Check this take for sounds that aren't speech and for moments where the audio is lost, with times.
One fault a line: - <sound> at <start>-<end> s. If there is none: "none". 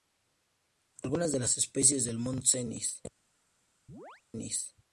- chirp at 3.9-4.2 s